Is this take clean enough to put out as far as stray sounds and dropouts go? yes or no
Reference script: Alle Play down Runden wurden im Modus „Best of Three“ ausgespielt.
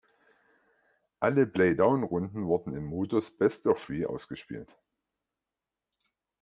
yes